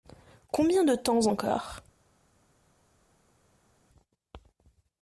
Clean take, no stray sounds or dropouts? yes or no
yes